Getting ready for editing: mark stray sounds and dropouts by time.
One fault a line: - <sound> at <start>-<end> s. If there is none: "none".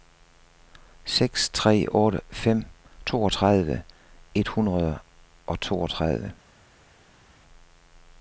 none